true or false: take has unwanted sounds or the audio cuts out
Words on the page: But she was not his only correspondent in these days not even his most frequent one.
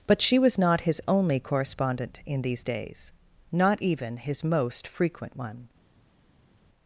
false